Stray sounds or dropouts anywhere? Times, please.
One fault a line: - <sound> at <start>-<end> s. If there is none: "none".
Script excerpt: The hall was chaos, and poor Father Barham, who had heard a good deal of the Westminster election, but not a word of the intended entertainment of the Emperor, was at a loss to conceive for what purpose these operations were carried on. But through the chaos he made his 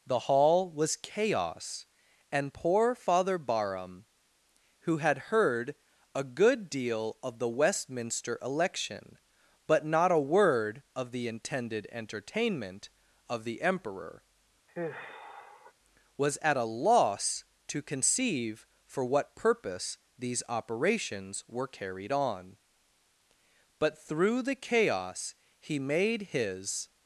- sigh at 14.7-15.7 s